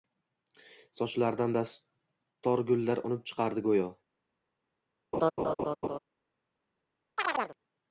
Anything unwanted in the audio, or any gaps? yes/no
yes